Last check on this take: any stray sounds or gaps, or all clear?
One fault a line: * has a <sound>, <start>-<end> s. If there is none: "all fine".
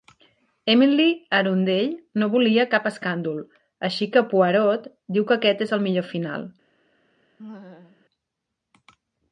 * has a laugh, 7.4-8.1 s